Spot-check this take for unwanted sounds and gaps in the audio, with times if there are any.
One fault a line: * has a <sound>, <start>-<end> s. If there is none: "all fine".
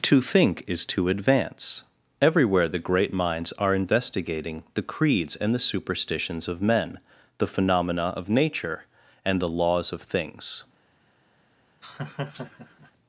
* has a laugh, 11.8-12.9 s